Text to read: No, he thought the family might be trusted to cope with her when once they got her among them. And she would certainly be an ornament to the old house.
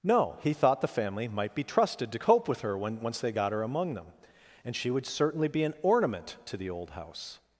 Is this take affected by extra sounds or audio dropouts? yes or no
no